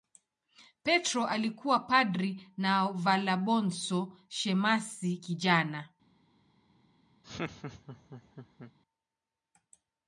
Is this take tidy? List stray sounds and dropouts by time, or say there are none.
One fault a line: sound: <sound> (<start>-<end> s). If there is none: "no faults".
sound: laugh (7.2-8.7 s)